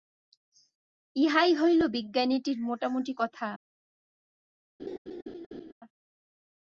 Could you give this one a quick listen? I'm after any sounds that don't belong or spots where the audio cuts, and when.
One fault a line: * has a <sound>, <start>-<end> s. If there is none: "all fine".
* has a laugh, 4.8-5.7 s